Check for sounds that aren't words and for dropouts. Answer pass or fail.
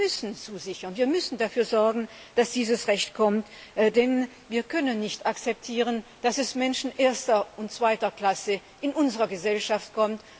pass